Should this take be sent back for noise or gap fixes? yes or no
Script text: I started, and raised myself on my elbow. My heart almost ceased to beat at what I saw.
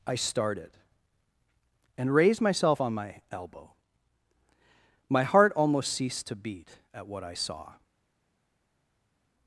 no